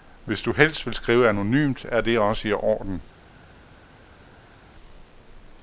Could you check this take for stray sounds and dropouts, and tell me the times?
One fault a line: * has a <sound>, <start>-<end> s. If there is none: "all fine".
all fine